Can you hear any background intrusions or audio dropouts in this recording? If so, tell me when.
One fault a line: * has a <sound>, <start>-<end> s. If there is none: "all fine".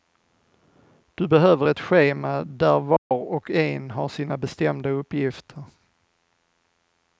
* has a dropout, 3.0-3.1 s